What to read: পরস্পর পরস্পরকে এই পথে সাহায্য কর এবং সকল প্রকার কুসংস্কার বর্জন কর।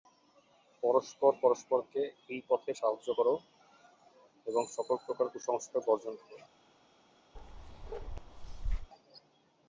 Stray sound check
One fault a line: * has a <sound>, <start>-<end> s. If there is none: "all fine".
* has a bark, 7.3-8.9 s